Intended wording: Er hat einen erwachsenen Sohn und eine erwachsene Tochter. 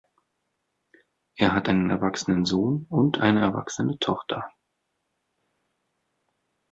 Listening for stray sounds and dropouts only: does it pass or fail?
pass